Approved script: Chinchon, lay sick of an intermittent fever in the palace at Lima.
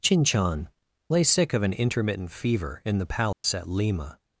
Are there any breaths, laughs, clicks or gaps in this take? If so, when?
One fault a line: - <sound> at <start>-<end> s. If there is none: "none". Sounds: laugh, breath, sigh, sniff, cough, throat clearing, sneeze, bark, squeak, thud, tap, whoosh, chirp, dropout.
- dropout at 3.3-3.4 s